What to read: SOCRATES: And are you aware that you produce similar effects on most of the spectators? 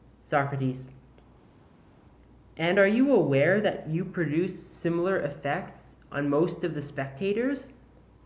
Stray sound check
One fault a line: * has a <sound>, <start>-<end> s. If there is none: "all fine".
all fine